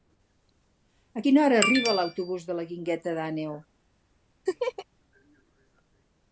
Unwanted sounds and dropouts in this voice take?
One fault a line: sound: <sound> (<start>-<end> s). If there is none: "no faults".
sound: laugh (4.5-4.9 s)